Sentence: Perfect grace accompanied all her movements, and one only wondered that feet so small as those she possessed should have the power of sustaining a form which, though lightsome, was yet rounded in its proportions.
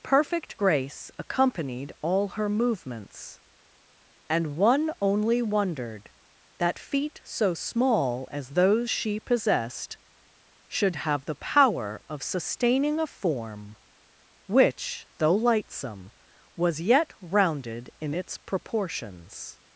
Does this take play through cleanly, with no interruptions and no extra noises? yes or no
yes